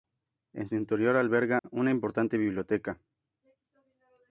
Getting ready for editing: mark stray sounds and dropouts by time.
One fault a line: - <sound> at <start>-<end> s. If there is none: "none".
- dropout at 1.6-1.6 s